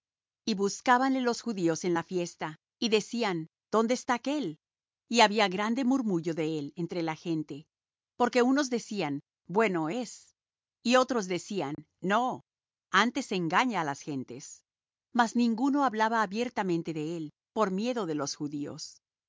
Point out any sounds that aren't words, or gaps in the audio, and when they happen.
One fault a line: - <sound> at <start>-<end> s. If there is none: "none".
- dropout at 11.7-11.8 s